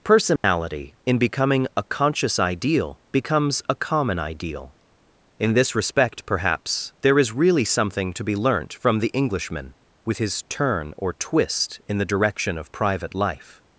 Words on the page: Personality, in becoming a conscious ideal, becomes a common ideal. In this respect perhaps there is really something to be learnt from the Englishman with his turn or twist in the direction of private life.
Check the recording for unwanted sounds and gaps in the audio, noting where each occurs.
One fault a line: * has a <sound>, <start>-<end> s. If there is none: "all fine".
* has a dropout, 0.4-0.4 s